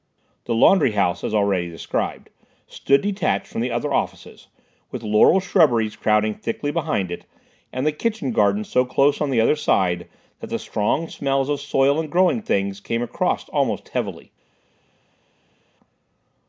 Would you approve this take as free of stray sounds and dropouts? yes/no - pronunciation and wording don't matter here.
yes